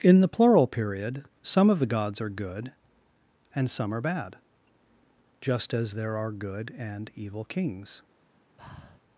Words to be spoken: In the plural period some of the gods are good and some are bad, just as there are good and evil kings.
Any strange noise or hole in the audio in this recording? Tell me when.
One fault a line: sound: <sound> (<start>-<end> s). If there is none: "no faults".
sound: breath (8.6-9.0 s)